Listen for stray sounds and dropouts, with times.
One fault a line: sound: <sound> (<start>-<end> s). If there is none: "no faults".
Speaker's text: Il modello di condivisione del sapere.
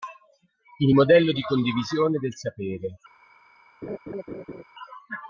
sound: laugh (3.8-4.6 s)